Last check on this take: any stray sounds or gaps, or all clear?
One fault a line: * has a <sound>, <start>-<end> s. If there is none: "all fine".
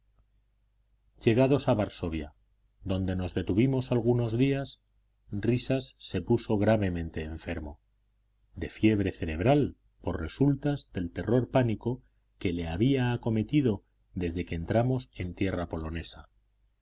all fine